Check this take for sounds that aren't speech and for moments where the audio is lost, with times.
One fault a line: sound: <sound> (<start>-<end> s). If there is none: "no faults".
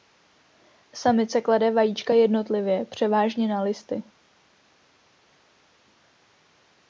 no faults